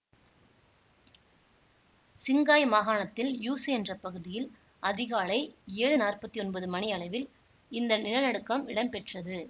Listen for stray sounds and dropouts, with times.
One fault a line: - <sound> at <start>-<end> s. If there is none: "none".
none